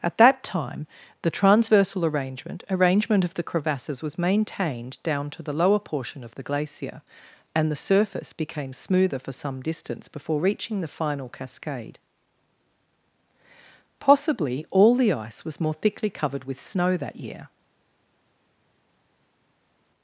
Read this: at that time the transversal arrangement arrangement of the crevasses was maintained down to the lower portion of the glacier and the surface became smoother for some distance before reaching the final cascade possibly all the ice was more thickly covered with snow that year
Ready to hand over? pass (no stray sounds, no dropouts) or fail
pass